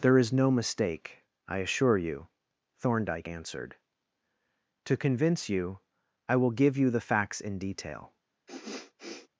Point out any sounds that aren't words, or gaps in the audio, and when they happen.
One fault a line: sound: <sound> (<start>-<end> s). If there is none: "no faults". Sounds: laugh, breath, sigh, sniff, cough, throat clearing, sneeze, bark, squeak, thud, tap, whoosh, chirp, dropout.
sound: sniff (8.5-9.3 s)